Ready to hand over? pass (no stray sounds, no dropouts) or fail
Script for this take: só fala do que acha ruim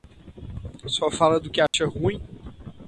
fail